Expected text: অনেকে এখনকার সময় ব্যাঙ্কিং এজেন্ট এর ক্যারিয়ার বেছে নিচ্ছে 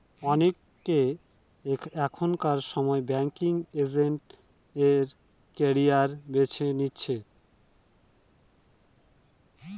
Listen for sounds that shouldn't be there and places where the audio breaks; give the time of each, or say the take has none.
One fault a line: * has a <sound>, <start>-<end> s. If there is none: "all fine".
all fine